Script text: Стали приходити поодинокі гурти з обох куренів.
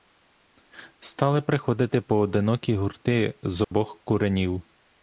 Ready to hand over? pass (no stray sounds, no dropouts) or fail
fail